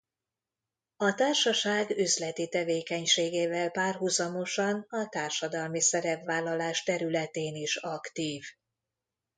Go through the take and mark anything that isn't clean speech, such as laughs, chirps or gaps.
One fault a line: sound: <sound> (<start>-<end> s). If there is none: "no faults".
no faults